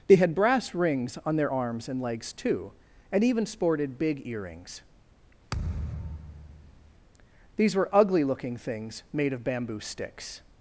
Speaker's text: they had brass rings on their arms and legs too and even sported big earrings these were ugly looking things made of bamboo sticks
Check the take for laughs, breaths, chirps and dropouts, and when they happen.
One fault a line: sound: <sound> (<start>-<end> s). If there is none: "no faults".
sound: thud (5.5-6.9 s)